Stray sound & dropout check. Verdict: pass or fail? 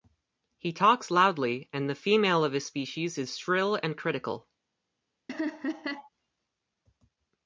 fail